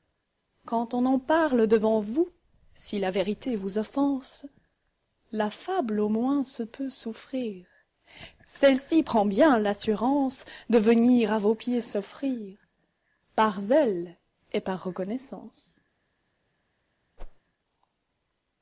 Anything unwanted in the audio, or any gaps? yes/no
yes